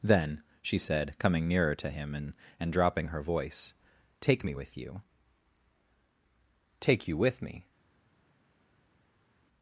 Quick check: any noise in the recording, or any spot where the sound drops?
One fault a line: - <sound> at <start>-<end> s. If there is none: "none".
none